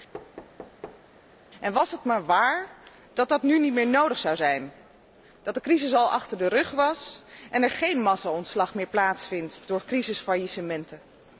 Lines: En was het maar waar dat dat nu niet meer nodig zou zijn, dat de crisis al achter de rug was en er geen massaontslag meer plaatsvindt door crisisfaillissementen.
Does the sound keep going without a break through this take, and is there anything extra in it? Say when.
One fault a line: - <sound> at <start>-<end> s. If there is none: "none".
- thud at 0.1-1.0 s